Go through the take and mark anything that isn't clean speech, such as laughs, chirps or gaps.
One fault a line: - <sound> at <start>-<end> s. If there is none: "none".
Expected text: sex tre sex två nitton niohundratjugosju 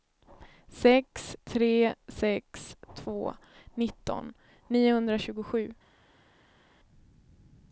none